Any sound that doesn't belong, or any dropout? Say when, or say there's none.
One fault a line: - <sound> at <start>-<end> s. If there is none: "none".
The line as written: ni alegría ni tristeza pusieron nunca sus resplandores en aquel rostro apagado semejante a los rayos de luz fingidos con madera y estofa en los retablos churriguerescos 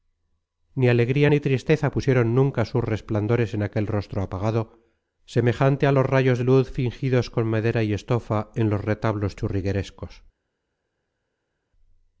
none